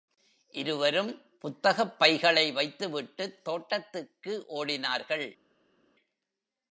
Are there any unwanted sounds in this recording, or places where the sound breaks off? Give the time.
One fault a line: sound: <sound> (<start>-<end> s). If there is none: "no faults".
no faults